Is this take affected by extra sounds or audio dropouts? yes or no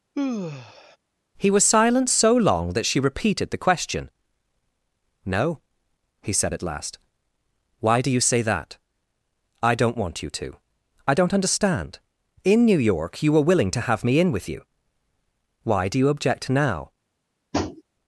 yes